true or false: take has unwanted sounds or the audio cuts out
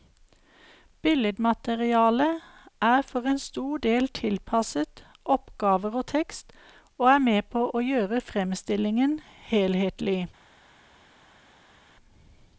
false